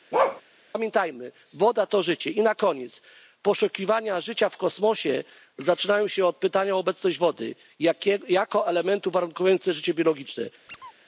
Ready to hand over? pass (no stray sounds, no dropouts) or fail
fail